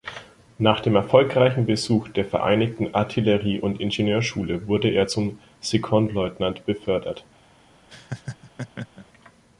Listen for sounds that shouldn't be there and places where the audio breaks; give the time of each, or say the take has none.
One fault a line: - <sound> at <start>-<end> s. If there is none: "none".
- laugh at 7.9-9.1 s